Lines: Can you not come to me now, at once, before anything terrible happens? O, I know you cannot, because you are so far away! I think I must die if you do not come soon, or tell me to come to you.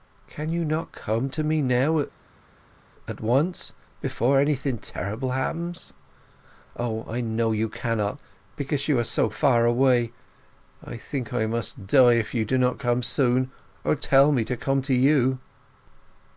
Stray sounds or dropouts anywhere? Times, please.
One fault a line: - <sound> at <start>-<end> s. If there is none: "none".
none